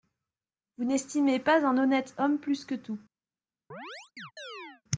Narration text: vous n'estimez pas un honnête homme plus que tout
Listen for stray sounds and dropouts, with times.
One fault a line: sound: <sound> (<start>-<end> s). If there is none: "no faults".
sound: chirp (3.7-4.8 s)